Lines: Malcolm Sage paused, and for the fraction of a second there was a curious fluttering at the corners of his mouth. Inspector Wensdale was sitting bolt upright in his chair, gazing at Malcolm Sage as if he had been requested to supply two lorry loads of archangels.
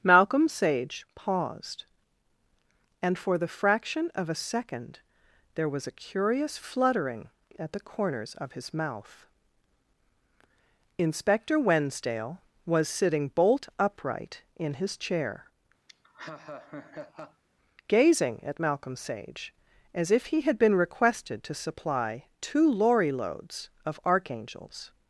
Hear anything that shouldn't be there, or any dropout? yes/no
yes